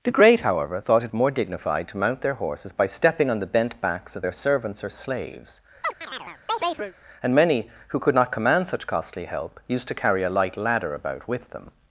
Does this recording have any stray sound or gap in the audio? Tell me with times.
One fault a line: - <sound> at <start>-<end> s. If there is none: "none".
- chirp at 5.8-6.9 s